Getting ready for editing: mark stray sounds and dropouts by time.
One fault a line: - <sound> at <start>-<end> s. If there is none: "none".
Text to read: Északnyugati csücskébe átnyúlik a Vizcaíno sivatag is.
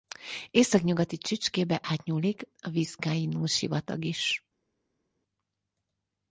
none